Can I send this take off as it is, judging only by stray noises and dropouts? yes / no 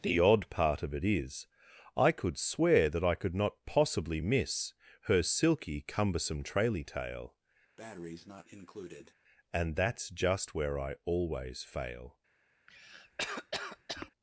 no